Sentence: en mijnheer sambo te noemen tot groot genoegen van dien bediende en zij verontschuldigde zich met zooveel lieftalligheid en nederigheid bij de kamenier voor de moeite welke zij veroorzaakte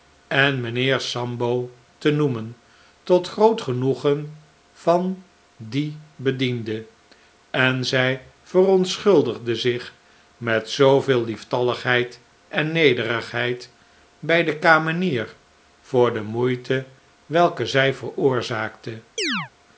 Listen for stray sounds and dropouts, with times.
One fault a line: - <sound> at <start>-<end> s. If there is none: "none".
- chirp at 19.2-19.5 s